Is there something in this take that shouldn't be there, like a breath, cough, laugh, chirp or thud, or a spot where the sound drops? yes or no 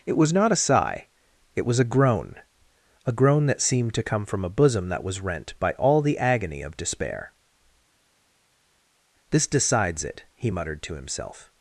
no